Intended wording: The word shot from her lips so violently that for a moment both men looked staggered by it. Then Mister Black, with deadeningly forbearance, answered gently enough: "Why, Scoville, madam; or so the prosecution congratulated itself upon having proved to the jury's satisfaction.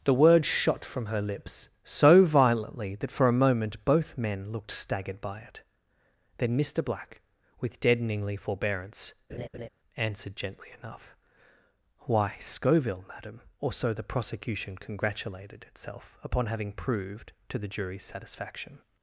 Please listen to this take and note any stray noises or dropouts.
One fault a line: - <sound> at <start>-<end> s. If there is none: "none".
- laugh at 9.3-9.7 s